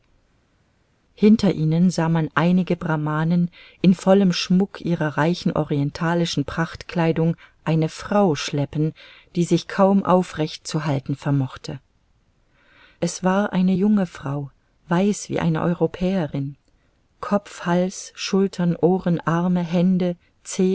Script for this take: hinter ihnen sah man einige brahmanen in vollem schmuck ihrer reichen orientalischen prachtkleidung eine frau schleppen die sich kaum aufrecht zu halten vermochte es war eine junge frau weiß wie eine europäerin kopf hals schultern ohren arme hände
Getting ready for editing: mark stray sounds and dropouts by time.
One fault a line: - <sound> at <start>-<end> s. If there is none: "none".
none